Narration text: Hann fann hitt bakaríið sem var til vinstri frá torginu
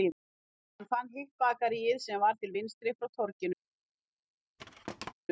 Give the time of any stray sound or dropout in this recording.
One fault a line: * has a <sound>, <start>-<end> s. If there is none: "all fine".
* has a thud, 4.6-5.1 s